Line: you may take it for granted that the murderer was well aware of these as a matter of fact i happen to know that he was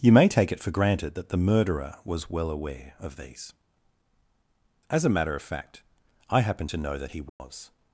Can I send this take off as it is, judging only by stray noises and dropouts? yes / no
no